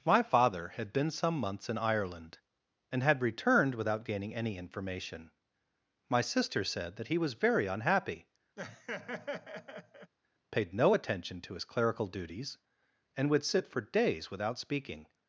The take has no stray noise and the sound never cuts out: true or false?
false